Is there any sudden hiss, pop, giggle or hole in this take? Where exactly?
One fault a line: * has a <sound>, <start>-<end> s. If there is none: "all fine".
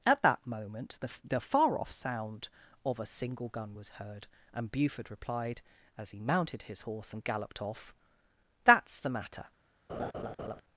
* has a laugh, 9.9-10.6 s